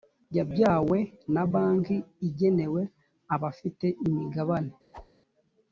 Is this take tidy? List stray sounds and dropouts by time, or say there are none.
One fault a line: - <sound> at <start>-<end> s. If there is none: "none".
- whoosh at 4.9-5.1 s